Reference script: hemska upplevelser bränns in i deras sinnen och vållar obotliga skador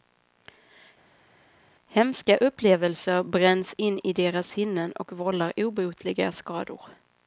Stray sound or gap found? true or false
false